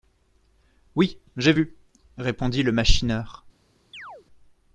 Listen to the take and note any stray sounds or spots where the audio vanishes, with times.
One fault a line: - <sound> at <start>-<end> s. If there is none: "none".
- chirp at 3.9-4.3 s